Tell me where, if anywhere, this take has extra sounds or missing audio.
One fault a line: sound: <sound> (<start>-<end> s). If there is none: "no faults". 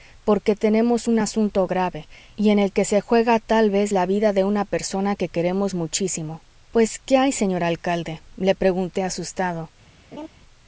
sound: laugh (10.1-10.3 s)